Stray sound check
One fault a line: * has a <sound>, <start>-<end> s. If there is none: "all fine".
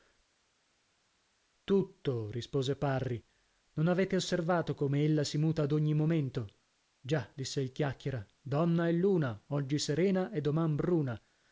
all fine